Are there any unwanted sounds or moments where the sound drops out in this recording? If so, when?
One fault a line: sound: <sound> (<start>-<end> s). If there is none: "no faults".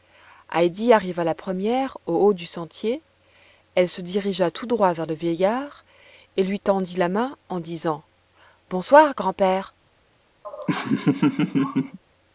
sound: laugh (10.4-12.0 s)